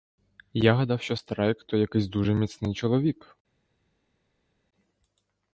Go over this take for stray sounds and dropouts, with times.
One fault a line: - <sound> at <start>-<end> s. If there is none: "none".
none